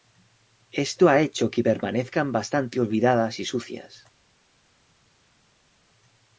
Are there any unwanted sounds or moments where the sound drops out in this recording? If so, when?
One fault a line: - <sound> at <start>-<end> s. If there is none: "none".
none